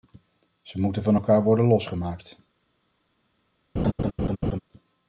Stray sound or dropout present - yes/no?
yes